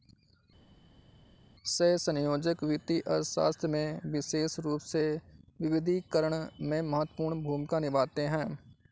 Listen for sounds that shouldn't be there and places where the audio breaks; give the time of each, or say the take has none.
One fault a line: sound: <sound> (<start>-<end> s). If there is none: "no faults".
no faults